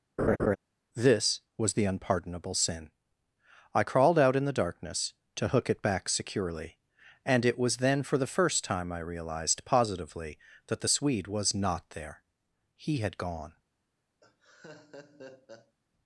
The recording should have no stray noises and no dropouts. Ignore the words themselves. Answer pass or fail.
fail